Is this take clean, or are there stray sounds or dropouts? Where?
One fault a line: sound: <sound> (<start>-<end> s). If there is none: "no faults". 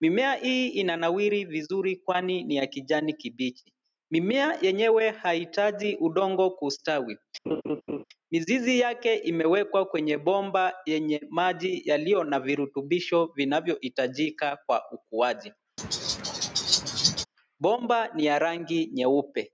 sound: laugh (7.5-8.0 s)
sound: laugh (15.8-17.3 s)